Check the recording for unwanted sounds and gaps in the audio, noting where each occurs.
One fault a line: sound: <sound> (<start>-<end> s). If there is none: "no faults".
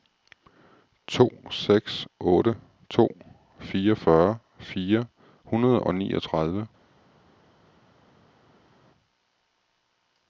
no faults